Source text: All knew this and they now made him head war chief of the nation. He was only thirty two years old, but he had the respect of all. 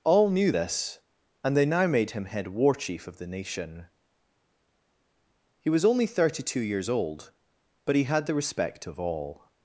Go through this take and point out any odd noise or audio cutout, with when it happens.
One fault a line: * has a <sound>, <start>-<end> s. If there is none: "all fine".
all fine